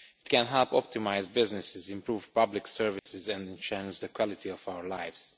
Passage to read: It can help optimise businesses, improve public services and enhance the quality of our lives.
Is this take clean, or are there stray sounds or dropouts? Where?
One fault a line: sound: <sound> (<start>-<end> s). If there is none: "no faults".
sound: dropout (3.0-3.1 s)